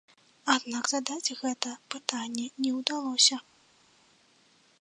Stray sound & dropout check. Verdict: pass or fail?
pass